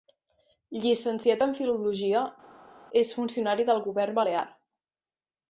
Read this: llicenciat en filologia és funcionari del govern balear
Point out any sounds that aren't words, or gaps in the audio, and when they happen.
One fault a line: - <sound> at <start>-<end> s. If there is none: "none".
none